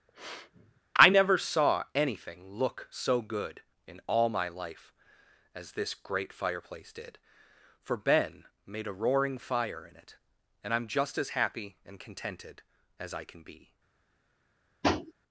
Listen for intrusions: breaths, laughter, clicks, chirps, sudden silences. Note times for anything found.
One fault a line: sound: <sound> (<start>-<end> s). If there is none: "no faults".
sound: sniff (0.1-0.8 s)
sound: tap (14.8-15.1 s)